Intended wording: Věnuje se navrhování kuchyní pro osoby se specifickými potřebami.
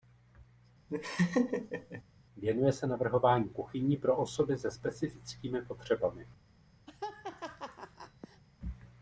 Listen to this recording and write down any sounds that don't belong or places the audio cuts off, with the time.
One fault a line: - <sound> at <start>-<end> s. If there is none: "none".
- laugh at 0.9-2.0 s
- laugh at 6.9-8.4 s